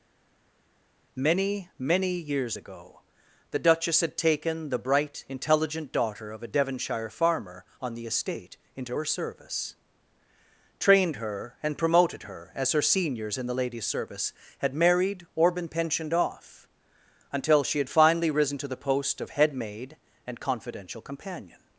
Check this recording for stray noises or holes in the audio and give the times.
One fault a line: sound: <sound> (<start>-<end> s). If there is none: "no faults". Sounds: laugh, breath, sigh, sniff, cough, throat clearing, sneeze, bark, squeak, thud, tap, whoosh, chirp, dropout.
no faults